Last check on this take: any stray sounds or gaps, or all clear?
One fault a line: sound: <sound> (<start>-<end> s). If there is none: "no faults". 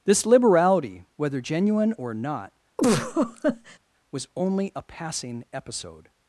sound: laugh (2.8-3.8 s)